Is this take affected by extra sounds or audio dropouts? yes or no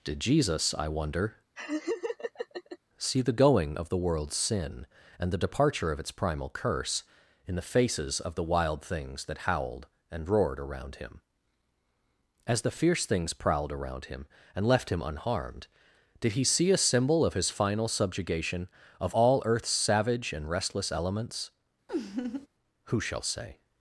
yes